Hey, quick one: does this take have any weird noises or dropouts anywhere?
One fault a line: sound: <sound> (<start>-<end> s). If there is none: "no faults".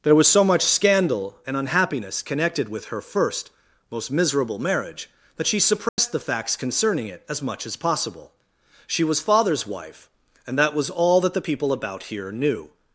sound: dropout (5.9-6.0 s)